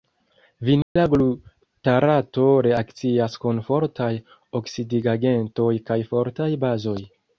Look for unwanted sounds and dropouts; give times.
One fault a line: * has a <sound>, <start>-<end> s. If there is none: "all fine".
* has a dropout, 0.8-1.0 s